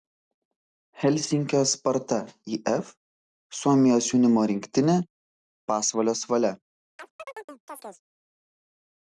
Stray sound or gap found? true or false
true